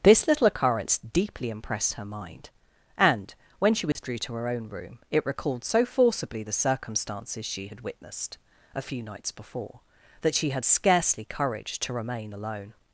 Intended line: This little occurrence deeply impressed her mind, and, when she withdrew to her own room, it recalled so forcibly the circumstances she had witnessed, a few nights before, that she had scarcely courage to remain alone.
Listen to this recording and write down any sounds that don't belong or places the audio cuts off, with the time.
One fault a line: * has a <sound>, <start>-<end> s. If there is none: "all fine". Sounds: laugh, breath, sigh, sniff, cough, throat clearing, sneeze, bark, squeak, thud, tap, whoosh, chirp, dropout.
* has a dropout, 3.9-4.0 s